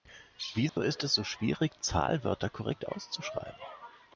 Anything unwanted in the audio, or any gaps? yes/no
yes